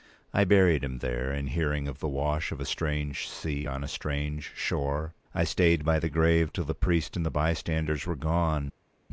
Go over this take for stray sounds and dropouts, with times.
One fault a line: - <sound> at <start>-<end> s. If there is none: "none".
none